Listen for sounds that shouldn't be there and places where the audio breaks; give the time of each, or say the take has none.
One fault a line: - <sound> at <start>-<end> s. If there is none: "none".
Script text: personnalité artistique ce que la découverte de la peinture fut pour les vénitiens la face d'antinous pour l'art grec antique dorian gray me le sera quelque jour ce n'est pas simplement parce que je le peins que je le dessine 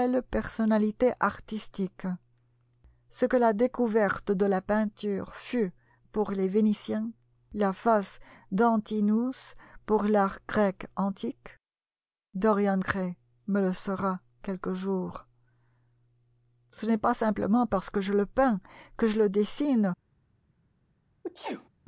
- sneeze at 21.2-21.7 s